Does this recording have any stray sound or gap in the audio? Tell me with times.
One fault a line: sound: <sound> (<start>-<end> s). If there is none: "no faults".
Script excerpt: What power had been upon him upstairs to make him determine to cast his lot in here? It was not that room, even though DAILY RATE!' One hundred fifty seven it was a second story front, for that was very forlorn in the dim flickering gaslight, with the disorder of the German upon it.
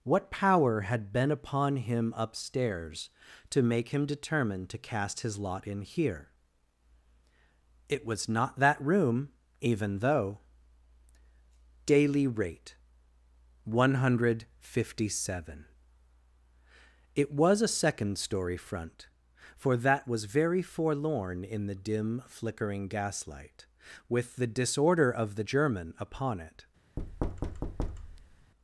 sound: thud (27.0-28.5 s)